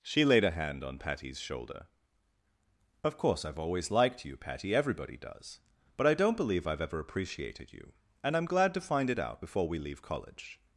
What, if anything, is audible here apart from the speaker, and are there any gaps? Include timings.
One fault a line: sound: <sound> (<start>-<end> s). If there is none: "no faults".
no faults